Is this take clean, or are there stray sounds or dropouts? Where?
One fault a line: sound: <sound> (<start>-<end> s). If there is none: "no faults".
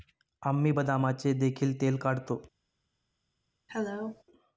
sound: cough (3.7-4.2 s)